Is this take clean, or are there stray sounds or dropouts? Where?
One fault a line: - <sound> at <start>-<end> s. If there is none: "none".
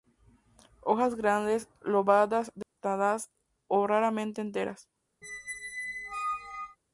- dropout at 2.6-2.8 s
- squeak at 5.2-6.8 s